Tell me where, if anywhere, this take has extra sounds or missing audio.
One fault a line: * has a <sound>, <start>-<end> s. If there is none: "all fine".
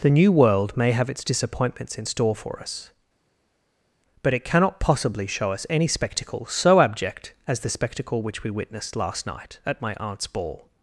all fine